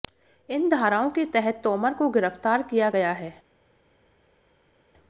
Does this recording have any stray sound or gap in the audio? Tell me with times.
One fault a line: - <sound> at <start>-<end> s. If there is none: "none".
none